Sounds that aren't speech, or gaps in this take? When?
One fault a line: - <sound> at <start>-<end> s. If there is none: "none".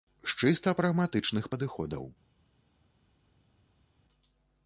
none